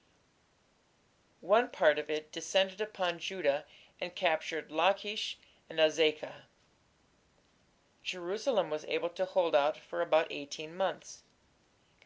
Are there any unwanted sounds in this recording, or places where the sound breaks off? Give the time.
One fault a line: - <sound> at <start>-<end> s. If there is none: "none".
none